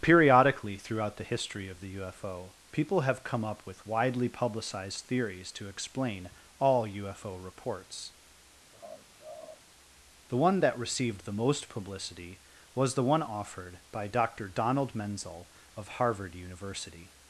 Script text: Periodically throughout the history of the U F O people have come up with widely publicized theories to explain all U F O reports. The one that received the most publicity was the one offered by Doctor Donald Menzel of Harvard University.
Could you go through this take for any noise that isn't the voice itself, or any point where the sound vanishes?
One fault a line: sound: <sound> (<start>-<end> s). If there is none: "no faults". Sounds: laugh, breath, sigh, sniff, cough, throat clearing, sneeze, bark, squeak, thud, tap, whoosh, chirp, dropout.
sound: laugh (8.7-9.6 s)